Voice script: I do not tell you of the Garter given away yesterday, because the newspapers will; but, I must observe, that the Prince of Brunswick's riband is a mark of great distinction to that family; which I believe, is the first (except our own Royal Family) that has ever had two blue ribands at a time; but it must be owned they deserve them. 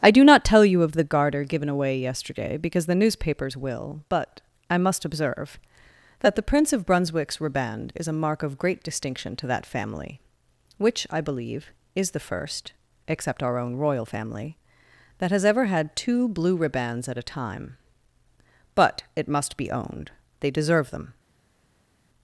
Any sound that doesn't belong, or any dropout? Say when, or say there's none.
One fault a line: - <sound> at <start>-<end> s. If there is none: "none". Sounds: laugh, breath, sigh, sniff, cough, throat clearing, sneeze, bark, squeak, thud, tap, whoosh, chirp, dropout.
none